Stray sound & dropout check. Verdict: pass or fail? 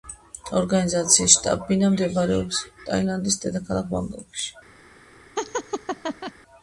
fail